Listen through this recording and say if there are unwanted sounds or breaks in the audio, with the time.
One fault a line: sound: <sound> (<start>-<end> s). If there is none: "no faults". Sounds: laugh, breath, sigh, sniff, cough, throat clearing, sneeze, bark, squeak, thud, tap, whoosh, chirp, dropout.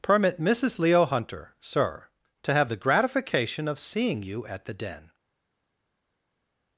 no faults